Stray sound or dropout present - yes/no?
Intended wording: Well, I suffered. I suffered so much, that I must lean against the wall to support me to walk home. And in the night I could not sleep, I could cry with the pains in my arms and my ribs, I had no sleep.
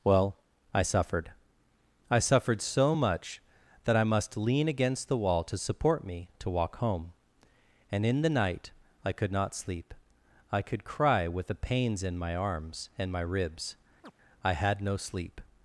yes